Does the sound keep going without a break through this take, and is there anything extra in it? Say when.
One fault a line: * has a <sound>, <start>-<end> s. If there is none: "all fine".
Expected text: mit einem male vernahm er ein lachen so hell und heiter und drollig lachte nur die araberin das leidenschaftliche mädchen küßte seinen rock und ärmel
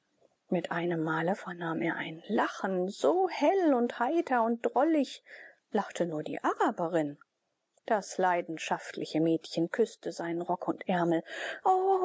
all fine